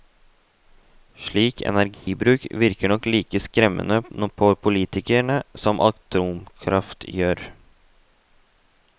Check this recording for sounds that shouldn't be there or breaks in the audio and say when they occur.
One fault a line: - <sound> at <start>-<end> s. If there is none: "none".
- dropout at 1.9-2.1 s